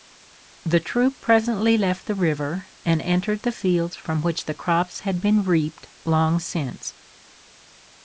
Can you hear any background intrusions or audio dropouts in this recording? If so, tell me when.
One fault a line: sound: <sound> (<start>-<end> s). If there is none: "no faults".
no faults